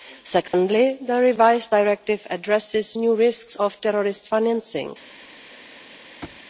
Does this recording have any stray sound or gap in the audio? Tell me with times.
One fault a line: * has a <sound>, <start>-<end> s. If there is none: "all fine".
* has a dropout, 0.5-0.5 s
* has a thud, 6.2-6.4 s